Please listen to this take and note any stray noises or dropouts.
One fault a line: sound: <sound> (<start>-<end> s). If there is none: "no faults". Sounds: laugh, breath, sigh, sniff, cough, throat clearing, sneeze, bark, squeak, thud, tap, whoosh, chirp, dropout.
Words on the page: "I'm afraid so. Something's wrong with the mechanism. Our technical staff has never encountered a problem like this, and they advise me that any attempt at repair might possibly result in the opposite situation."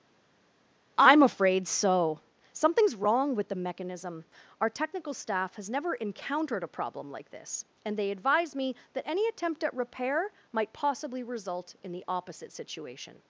no faults